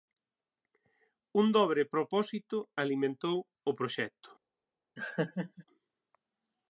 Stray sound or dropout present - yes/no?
yes